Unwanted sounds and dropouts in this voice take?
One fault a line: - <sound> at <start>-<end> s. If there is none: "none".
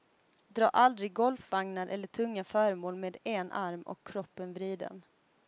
none